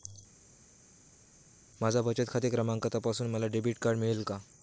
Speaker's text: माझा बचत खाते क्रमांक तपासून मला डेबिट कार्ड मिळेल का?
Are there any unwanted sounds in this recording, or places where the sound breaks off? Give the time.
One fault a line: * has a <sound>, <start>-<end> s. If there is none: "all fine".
all fine